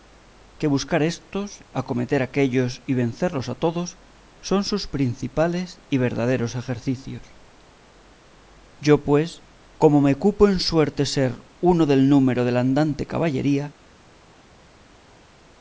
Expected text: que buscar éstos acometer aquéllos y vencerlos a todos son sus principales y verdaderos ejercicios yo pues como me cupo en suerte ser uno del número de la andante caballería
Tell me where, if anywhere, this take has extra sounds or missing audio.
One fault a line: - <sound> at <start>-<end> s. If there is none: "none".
none